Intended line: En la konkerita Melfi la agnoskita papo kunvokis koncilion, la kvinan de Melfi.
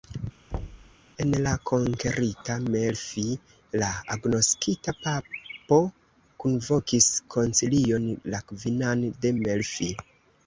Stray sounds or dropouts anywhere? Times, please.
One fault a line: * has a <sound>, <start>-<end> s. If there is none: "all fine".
* has a thud, 0.5-1.0 s